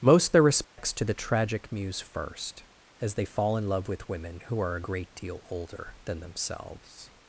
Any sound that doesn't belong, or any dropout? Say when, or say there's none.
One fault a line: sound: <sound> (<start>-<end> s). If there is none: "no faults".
sound: dropout (0.6-0.8 s)